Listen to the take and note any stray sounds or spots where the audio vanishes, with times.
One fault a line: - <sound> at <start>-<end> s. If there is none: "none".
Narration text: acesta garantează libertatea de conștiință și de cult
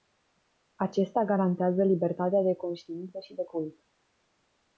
none